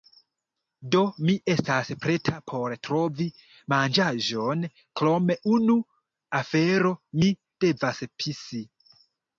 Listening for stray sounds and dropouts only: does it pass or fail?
pass